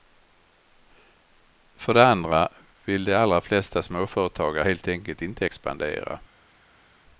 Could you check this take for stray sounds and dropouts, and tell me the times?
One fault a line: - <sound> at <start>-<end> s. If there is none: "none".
none